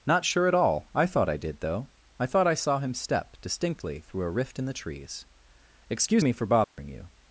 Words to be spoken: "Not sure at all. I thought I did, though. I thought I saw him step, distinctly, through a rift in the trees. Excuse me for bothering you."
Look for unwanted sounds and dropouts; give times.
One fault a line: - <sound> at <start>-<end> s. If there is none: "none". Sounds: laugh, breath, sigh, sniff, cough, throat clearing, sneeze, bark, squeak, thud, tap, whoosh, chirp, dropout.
- dropout at 6.6-6.8 s